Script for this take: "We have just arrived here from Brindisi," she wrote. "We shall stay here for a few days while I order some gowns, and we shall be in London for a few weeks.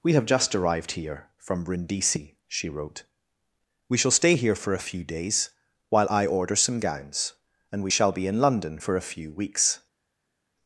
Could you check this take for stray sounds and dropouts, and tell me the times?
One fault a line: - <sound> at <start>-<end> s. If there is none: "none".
none